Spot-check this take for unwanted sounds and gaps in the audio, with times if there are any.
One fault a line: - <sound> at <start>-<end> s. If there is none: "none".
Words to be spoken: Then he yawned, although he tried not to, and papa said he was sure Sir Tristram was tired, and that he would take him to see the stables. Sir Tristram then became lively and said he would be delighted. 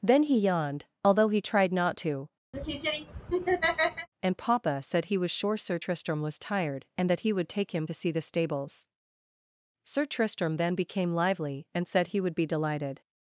- laugh at 2.5-4.1 s